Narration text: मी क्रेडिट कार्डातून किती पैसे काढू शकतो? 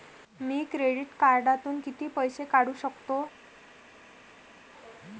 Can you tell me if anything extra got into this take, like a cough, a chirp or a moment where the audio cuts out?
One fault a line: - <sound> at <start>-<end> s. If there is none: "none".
none